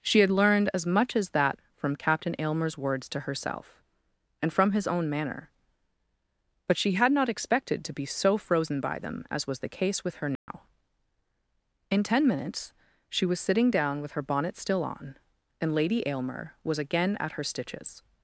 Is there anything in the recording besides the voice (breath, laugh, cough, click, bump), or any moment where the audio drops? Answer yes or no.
yes